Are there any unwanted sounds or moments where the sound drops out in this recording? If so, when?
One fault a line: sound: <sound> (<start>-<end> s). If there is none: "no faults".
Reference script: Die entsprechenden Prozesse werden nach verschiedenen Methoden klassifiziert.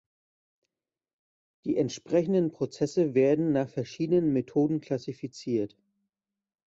no faults